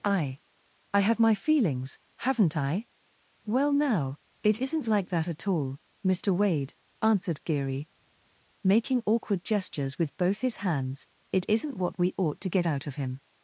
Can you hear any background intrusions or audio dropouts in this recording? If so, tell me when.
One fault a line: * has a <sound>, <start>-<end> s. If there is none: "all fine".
all fine